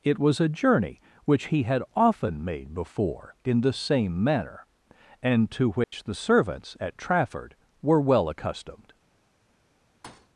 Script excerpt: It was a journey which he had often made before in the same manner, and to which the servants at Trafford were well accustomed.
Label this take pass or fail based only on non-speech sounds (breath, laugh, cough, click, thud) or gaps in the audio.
fail